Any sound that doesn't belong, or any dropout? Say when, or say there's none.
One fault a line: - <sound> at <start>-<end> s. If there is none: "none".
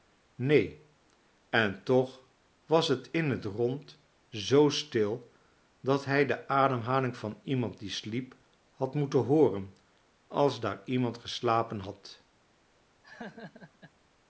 - laugh at 13.0-13.9 s